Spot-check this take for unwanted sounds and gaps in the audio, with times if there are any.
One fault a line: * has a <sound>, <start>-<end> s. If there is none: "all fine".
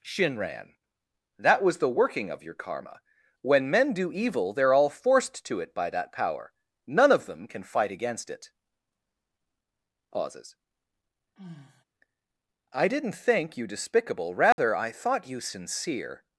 * has a sigh, 11.4-11.8 s
* has a dropout, 14.5-14.6 s